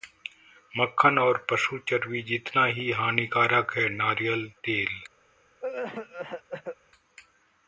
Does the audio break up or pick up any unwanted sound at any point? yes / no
yes